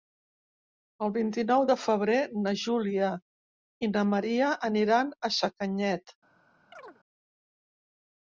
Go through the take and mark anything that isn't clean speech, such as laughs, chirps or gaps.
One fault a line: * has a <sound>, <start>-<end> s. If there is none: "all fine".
* has a chirp, 6.7-7.0 s